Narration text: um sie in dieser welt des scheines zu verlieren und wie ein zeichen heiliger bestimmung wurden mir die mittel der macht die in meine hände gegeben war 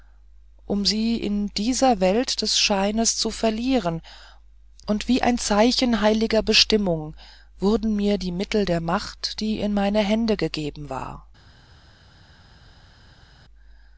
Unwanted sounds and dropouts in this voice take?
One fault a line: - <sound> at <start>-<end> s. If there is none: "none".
none